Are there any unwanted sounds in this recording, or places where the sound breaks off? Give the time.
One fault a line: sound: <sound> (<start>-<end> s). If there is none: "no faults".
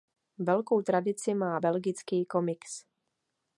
no faults